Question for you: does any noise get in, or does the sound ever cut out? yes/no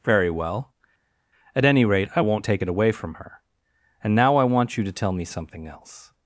no